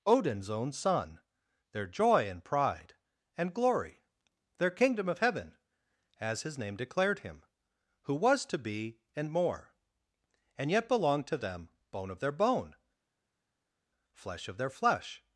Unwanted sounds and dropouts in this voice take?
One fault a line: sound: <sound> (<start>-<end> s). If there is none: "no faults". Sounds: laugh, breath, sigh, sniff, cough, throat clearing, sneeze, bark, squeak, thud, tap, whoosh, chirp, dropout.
no faults